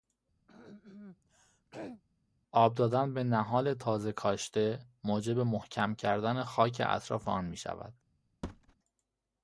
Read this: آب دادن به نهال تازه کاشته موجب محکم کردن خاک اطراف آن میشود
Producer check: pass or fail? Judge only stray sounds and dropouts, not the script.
fail